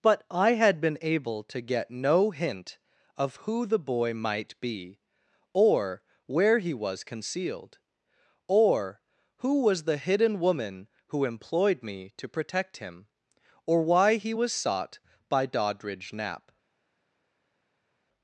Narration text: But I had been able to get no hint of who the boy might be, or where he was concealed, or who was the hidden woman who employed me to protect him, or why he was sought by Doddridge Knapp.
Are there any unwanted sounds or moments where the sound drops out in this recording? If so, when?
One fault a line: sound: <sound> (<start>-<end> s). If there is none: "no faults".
no faults